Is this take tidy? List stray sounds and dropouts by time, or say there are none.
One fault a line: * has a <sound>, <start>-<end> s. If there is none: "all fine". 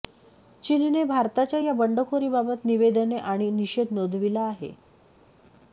all fine